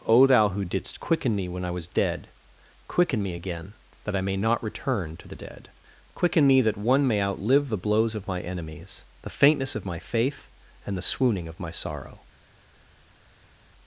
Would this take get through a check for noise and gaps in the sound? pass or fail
pass